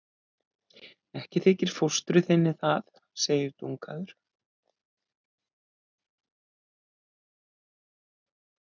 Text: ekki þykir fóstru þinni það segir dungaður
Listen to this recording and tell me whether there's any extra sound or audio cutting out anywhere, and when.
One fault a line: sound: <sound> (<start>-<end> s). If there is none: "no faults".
no faults